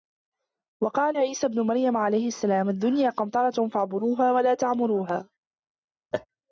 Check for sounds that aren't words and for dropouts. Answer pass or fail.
fail